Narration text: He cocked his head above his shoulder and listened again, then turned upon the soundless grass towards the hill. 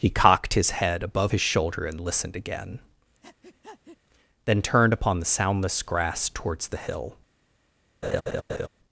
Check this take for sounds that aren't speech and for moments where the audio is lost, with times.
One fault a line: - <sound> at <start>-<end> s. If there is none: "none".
- breath at 3.2-4.0 s
- laugh at 8.0-8.7 s